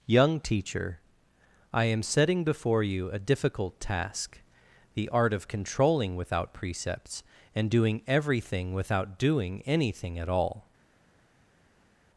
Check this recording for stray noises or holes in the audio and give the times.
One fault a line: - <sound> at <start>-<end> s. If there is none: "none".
none